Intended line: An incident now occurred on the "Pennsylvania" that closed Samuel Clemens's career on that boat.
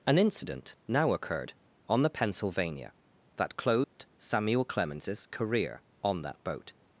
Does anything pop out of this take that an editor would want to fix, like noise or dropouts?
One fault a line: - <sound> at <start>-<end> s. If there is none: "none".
- dropout at 3.8-4.0 s